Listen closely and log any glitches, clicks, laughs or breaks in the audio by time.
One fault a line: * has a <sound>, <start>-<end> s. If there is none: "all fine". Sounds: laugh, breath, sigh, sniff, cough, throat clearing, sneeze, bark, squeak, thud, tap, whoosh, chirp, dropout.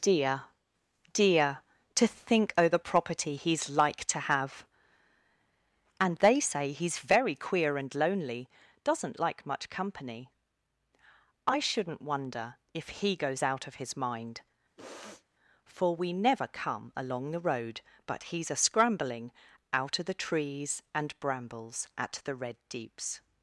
* has a sniff, 14.8-15.2 s